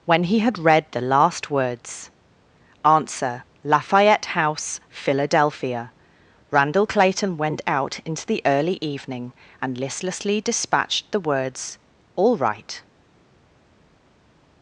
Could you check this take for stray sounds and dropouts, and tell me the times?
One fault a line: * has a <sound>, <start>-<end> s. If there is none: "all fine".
all fine